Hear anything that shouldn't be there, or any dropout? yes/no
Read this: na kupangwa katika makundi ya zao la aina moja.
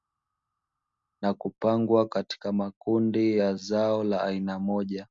no